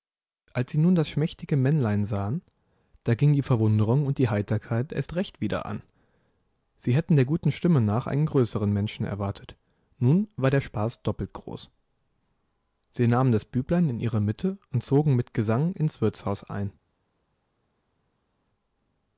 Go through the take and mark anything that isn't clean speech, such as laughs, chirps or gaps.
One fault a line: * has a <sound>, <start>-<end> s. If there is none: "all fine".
all fine